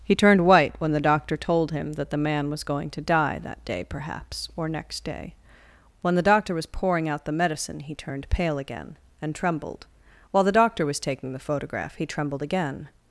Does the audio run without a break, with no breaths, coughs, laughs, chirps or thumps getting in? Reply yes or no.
yes